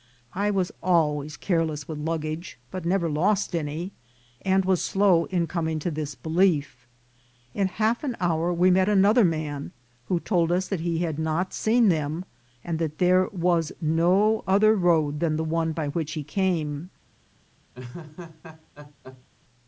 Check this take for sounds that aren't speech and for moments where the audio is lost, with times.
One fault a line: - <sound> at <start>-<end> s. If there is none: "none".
- laugh at 17.7-19.3 s